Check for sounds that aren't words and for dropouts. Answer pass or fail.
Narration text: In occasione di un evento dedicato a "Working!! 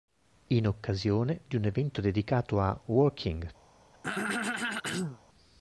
fail